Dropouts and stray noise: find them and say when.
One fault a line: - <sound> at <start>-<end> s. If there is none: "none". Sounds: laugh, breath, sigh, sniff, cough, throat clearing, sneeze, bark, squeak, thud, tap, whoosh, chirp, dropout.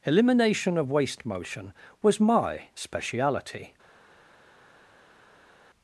none